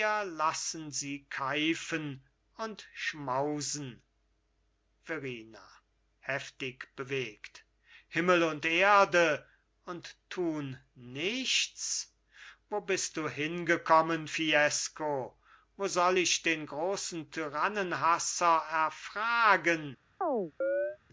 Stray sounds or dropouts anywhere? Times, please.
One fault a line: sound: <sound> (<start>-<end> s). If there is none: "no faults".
sound: chirp (20.2-21.0 s)